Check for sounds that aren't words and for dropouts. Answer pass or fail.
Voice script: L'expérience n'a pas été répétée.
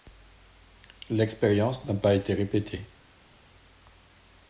pass